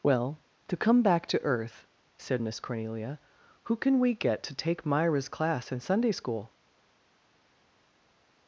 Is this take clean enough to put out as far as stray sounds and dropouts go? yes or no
yes